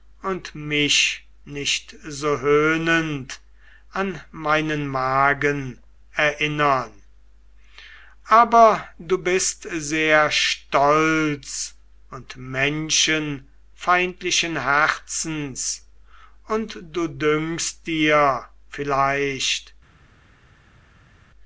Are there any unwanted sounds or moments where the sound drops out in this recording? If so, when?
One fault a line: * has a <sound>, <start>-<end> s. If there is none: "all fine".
all fine